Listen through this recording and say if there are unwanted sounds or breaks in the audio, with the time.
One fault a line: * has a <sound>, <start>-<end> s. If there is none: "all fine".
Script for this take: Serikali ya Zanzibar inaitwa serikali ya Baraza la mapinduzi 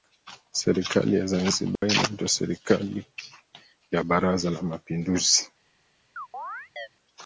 * has a dropout, 1.8-1.8 s
* has a chirp, 6.2-6.9 s